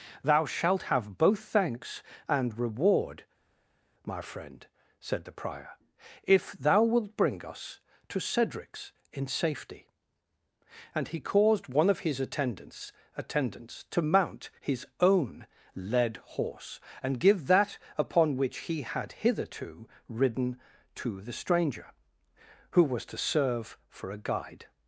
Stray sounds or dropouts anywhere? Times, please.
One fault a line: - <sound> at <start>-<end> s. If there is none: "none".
none